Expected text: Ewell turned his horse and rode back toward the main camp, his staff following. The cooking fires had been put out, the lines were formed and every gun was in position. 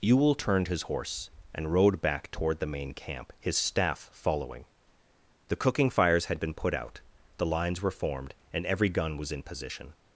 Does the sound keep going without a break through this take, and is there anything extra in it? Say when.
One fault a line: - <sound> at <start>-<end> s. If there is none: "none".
none